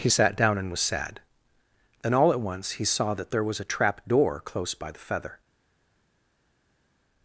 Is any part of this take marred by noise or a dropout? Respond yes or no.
no